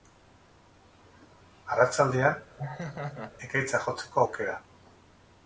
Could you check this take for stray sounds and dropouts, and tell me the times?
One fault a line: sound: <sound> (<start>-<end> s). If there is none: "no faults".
sound: laugh (2.6-3.3 s)